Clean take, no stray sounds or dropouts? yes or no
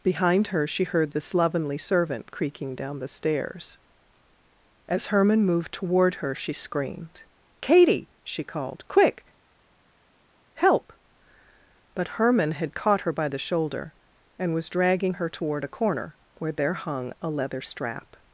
yes